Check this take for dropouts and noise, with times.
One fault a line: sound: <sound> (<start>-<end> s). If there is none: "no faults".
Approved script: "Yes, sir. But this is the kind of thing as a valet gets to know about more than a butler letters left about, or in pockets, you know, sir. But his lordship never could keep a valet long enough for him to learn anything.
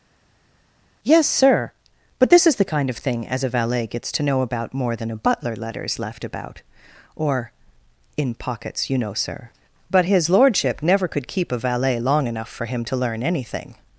no faults